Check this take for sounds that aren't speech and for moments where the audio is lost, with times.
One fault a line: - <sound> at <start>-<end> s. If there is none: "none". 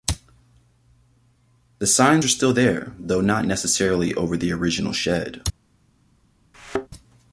- thud at 6.5-6.9 s